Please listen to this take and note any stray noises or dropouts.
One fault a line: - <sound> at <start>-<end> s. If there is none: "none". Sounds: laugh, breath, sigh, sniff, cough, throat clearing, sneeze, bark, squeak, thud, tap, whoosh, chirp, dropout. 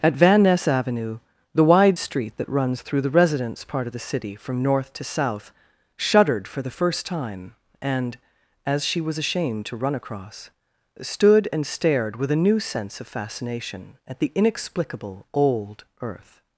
none